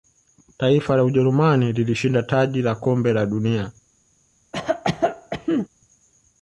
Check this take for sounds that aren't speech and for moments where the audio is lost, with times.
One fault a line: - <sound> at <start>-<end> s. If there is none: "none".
- cough at 4.5-5.7 s